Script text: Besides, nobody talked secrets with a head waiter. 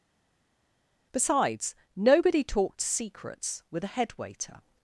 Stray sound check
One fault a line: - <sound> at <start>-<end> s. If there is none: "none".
none